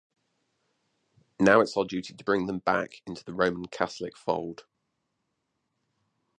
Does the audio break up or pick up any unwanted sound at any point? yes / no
no